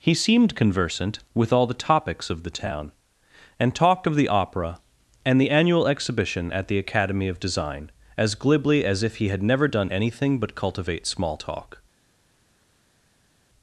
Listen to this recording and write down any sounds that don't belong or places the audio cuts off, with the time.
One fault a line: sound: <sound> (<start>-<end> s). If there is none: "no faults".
no faults